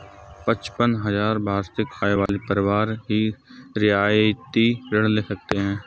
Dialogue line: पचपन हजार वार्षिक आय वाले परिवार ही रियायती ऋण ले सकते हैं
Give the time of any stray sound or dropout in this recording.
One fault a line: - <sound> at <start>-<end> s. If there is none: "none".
- dropout at 2.3-2.3 s